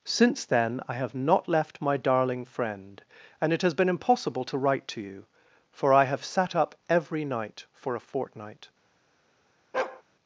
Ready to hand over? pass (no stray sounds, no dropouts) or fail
fail